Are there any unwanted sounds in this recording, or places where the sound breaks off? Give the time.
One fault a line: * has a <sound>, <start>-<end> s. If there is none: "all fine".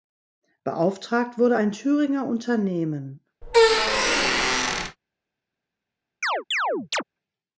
* has a squeak, 3.4-5.0 s
* has a chirp, 6.2-7.0 s